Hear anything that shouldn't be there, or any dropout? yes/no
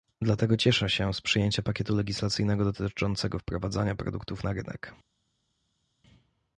no